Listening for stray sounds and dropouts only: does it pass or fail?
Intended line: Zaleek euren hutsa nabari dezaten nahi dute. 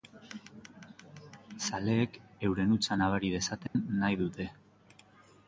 fail